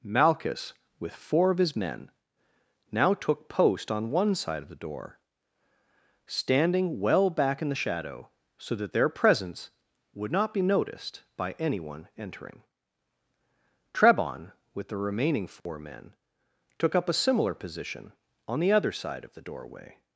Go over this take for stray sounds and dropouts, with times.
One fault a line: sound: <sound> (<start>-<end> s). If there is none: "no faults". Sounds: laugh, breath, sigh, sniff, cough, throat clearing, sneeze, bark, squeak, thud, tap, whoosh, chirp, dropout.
sound: dropout (15.6-15.7 s)